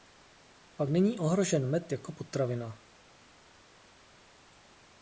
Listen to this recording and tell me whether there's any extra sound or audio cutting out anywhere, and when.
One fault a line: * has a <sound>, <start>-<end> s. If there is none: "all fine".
all fine